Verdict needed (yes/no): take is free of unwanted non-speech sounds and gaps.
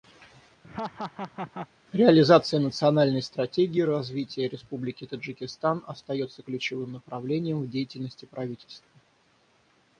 no